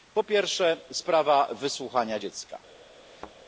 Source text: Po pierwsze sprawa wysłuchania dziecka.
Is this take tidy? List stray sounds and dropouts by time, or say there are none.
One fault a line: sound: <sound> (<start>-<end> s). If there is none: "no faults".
sound: thud (3.0-3.4 s)